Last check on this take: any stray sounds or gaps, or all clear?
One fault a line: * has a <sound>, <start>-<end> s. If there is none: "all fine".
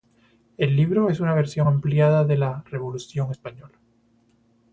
all fine